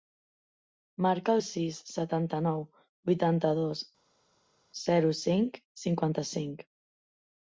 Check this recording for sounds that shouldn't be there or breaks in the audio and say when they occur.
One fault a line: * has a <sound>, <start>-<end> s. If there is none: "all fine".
all fine